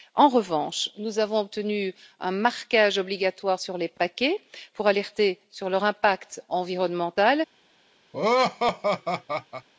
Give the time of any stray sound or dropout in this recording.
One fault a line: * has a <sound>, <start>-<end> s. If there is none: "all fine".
* has a laugh, 8.1-9.7 s